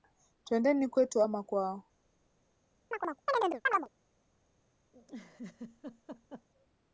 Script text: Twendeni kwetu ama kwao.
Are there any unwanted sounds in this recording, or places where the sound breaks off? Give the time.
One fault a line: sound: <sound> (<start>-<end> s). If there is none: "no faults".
sound: chirp (2.9-3.9 s)
sound: laugh (4.9-6.5 s)